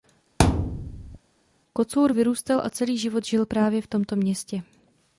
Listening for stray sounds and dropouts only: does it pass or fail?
fail